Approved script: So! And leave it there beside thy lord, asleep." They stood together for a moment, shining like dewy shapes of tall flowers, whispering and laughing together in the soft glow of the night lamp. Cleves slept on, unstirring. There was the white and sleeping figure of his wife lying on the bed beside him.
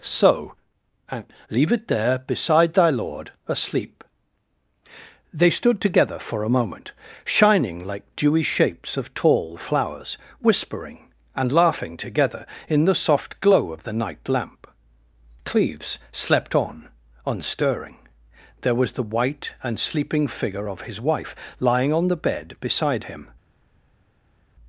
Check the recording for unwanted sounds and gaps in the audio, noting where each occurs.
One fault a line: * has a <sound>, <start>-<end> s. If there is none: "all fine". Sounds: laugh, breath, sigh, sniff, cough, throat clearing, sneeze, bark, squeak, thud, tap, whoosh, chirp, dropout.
all fine